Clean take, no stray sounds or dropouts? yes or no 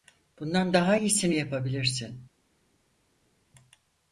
yes